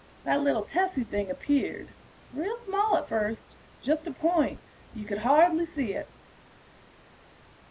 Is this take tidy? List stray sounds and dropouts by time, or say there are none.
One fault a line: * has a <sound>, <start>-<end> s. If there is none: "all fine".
all fine